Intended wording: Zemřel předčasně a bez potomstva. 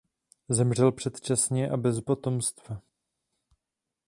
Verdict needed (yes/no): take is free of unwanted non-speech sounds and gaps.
yes